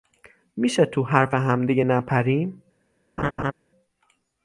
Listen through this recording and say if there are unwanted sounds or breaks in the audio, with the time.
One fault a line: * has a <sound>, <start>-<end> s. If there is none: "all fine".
* has a laugh, 3.2-3.5 s